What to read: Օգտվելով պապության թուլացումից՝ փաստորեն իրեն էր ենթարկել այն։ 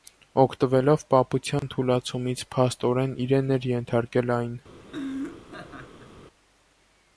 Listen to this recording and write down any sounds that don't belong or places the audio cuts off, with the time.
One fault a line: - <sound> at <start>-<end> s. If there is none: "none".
- dropout at 1.6-1.6 s
- laugh at 4.9-6.1 s